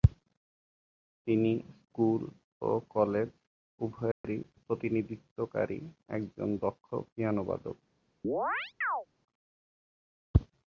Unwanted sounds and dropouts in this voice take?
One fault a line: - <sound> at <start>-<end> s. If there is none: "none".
- dropout at 4.1-4.2 s
- chirp at 8.2-9.1 s